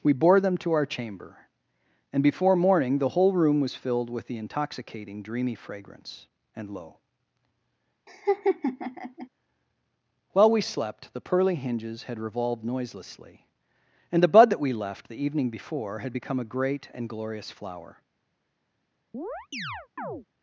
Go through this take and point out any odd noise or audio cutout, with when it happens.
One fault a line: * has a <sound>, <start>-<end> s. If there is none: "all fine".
* has a laugh, 8.1-9.3 s
* has a chirp, 19.1-20.3 s